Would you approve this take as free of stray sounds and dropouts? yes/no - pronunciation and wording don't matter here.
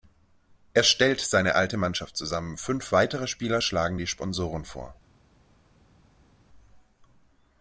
yes